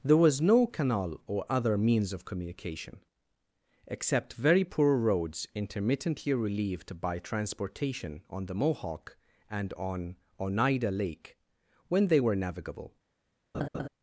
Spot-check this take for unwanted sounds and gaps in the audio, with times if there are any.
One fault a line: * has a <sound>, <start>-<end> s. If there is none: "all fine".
* has a laugh, 13.5-13.9 s